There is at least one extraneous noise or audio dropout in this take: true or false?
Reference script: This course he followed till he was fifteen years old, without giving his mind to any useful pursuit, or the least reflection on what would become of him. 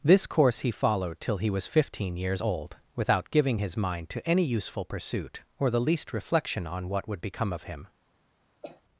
true